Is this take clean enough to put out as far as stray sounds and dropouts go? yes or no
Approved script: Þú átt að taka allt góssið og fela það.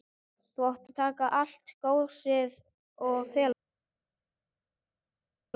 yes